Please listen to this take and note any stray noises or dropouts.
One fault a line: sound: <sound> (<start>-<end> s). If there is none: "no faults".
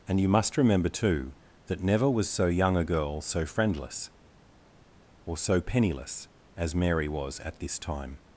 no faults